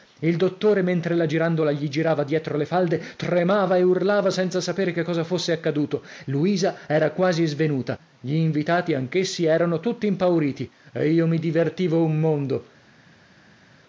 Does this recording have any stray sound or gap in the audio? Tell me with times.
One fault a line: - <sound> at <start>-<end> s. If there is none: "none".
none